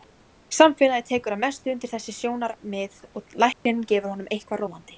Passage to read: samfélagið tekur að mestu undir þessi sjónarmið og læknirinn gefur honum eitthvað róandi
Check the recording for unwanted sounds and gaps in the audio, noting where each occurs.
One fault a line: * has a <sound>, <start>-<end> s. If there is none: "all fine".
* has a dropout, 3.5-3.7 s